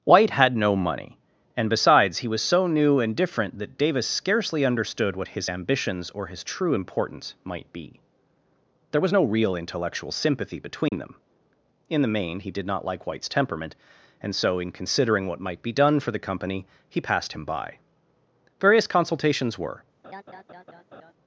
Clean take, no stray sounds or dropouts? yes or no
no